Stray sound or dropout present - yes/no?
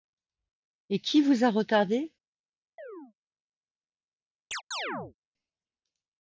yes